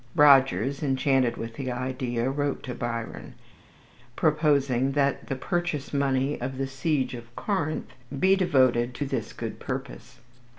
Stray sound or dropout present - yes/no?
no